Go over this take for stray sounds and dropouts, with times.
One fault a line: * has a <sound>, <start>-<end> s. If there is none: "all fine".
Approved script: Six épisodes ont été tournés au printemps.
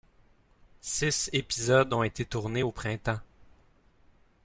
all fine